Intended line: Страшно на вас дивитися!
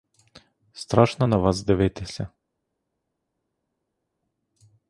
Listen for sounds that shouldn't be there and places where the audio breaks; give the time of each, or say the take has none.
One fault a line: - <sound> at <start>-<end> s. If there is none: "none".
none